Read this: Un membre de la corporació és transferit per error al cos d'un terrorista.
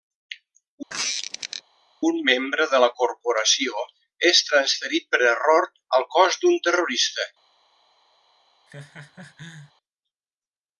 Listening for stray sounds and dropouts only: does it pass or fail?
fail